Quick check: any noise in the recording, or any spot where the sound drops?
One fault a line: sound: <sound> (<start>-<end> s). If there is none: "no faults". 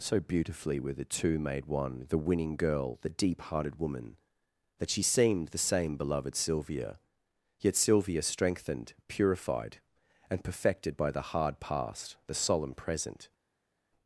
no faults